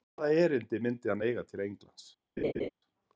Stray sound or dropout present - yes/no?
yes